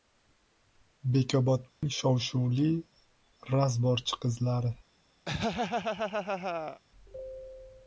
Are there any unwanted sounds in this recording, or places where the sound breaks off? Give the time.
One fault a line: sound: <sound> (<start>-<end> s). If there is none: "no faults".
sound: dropout (1.7-1.8 s)
sound: laugh (5.3-6.8 s)